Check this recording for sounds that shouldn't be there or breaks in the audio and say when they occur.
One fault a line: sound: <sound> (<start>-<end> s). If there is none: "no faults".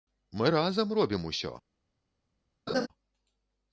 sound: laugh (2.7-2.9 s)